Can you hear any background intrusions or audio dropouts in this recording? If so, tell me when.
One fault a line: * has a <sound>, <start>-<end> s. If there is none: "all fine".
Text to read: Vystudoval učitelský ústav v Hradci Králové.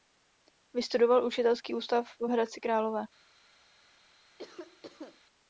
* has a cough, 4.4-5.2 s